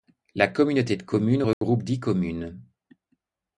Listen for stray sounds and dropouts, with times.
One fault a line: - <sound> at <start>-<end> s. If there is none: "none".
- dropout at 1.5-1.6 s